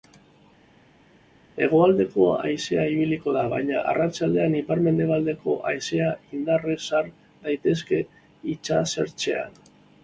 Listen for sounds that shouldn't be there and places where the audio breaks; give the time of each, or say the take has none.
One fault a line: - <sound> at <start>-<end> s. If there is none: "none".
none